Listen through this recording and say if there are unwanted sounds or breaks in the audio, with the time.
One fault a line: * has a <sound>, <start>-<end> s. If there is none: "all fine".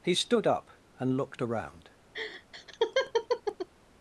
* has a laugh, 2.1-3.7 s